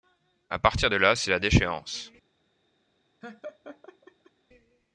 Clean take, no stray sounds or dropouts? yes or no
no